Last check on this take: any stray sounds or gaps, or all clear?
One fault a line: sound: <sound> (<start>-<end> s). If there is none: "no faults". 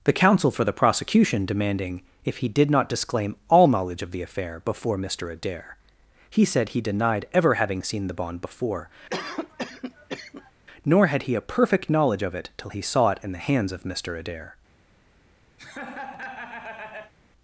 sound: cough (9.1-10.5 s)
sound: laugh (15.6-17.1 s)